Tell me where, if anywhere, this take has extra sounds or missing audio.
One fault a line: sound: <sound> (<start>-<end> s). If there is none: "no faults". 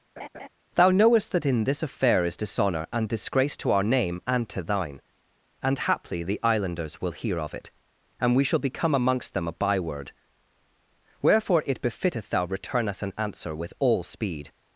sound: laugh (0.2-0.5 s)